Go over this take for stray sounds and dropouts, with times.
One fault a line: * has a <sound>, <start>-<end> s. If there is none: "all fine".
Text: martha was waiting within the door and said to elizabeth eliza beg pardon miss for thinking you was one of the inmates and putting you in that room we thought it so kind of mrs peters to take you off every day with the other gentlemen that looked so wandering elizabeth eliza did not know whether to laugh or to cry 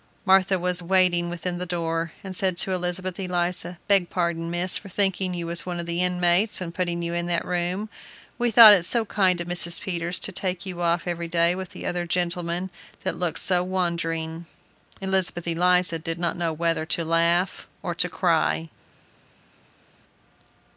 all fine